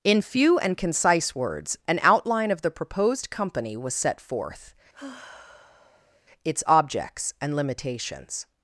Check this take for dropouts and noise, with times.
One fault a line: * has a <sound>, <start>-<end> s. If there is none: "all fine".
* has a sigh, 4.9-6.2 s